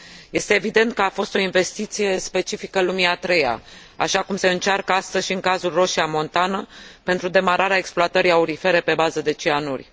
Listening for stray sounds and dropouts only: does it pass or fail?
pass